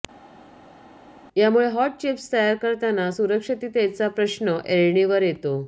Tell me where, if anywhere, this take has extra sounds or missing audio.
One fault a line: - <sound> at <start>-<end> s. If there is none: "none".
none